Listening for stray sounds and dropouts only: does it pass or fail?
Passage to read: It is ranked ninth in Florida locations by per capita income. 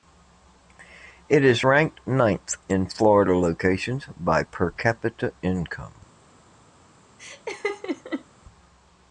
fail